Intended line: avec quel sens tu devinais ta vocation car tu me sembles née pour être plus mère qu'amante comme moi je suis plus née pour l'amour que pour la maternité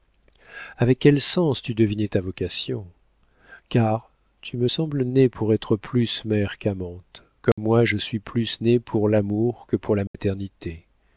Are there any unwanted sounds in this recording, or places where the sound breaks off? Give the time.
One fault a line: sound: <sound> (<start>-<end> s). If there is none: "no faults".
sound: dropout (7.5-7.6 s)
sound: dropout (10.1-10.1 s)